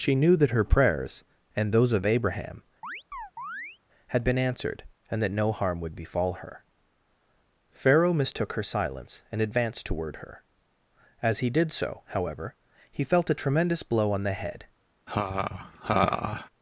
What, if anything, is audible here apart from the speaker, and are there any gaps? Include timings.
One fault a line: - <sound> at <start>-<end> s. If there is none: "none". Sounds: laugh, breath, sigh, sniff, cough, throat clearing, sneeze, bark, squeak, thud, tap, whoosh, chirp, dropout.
- chirp at 2.8-3.8 s
- laugh at 15.1-16.5 s